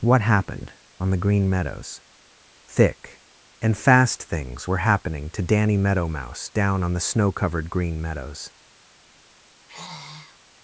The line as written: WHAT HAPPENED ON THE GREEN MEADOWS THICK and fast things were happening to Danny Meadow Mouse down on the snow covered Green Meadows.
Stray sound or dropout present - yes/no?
yes